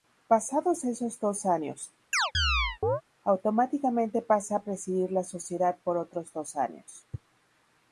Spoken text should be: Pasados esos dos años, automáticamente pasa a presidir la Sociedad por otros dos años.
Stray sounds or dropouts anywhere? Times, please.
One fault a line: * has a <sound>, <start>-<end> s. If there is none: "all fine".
* has a chirp, 2.1-3.0 s